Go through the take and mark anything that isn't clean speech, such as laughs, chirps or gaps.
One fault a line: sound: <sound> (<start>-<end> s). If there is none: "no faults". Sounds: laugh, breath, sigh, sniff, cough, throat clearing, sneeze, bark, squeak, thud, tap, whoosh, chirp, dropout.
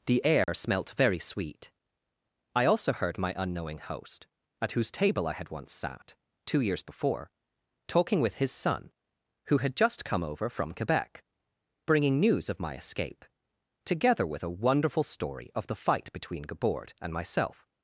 sound: dropout (0.4-0.5 s)